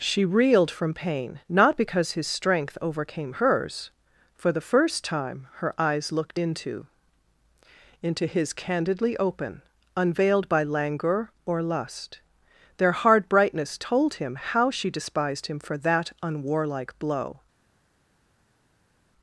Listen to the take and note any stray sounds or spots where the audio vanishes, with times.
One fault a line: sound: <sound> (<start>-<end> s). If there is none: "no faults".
no faults